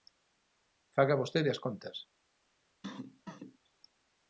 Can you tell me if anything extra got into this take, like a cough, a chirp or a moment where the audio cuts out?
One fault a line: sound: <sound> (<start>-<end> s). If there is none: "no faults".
sound: cough (2.8-3.6 s)